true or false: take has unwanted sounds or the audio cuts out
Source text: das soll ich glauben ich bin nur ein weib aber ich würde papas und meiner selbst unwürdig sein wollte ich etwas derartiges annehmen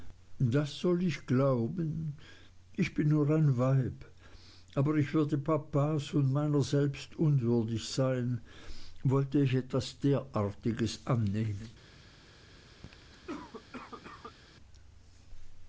true